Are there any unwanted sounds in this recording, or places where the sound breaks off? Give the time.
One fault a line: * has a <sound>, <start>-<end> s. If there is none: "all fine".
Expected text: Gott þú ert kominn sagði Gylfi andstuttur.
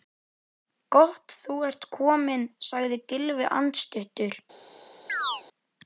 * has a chirp, 5.1-5.4 s